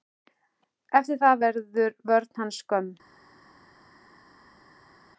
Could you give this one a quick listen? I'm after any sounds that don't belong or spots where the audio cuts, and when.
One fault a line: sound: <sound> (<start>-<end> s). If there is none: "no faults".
no faults